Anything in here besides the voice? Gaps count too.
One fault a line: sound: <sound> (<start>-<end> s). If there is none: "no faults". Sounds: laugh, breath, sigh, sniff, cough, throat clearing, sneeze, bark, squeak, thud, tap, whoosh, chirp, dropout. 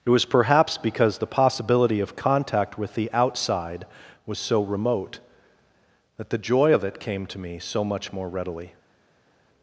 no faults